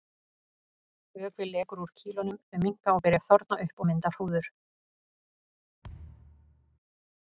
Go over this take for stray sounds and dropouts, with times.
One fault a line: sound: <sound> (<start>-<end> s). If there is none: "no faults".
sound: thud (5.8-6.8 s)